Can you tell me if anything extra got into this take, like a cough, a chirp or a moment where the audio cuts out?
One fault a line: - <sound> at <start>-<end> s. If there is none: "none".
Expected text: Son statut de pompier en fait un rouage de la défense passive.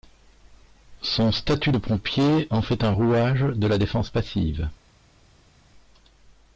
none